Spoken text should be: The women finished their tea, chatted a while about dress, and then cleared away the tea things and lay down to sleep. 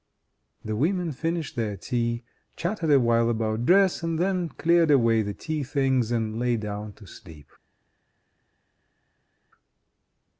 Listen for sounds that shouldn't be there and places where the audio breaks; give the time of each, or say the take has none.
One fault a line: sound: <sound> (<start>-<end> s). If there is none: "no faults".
no faults